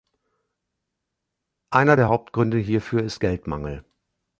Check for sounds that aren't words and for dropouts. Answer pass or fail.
pass